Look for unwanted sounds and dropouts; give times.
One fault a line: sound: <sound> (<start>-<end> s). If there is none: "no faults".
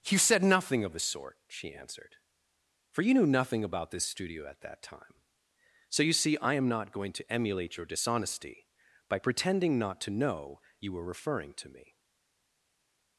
no faults